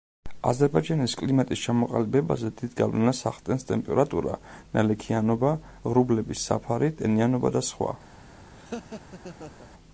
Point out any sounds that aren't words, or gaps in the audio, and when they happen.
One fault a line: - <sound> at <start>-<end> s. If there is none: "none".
- laugh at 8.5-9.7 s